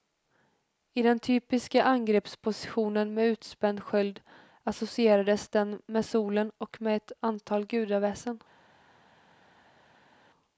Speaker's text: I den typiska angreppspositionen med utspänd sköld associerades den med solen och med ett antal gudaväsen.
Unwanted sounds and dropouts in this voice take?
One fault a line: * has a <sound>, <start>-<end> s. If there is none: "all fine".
all fine